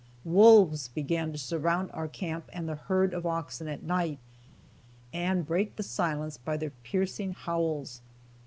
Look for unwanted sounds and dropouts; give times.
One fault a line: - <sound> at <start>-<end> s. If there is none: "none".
none